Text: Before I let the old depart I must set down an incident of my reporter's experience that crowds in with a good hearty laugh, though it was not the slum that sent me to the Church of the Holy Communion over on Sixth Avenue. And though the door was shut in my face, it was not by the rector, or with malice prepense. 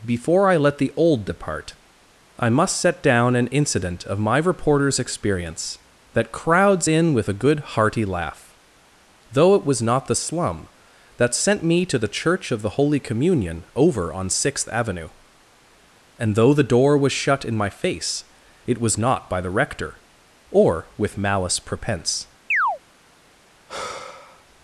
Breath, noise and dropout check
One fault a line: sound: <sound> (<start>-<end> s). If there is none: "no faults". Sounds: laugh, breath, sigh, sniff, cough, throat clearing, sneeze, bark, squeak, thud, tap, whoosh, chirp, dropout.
sound: chirp (22.5-22.8 s)
sound: sigh (23.7-24.5 s)